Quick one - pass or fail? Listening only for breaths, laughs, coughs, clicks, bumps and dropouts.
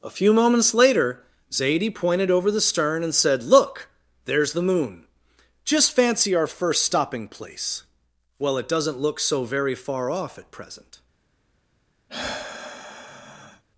fail